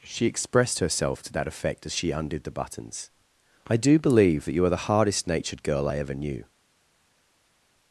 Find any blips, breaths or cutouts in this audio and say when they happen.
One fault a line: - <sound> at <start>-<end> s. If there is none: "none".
none